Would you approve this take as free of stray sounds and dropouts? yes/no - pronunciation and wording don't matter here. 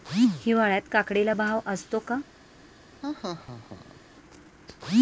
no